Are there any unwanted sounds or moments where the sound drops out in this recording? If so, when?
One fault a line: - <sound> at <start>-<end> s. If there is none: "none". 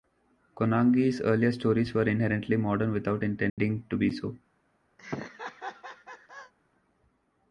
- dropout at 3.5-3.6 s
- laugh at 5.0-6.5 s